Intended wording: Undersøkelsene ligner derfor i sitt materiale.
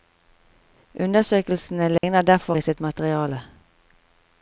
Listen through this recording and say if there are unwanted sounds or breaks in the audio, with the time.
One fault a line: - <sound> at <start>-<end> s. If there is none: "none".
- dropout at 2.0-2.0 s